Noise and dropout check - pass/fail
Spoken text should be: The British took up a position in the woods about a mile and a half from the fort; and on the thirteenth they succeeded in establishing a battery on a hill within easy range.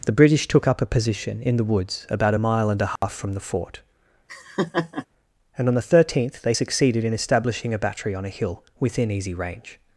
fail